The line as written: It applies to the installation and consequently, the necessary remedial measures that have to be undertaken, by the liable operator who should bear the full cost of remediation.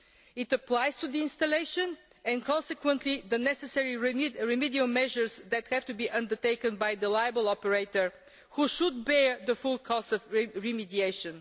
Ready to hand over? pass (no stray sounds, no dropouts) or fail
pass